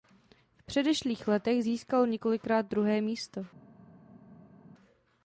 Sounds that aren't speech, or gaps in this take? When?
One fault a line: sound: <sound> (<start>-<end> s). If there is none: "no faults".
no faults